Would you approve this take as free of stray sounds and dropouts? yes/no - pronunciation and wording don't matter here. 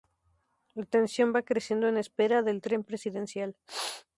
yes